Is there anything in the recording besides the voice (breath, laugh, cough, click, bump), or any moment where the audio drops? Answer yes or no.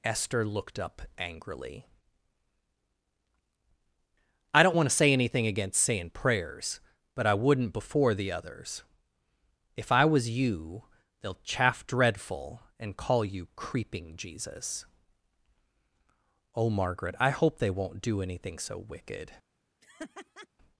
yes